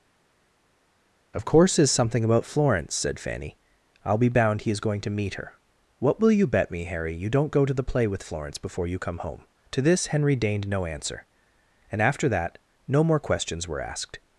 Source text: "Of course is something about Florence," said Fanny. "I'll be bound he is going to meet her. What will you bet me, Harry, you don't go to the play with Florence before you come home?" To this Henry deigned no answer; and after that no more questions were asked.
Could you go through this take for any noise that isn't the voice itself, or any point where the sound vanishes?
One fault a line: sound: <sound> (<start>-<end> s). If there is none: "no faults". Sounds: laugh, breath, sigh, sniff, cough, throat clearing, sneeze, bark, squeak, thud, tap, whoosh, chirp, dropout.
no faults